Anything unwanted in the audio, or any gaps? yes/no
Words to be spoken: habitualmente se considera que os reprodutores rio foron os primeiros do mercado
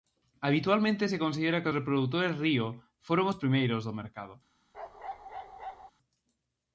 yes